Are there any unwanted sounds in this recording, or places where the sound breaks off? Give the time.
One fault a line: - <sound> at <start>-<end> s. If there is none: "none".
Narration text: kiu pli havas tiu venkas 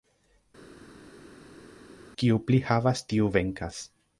none